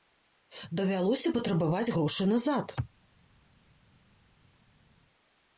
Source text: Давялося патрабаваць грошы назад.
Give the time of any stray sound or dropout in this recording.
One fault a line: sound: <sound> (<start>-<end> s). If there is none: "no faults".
no faults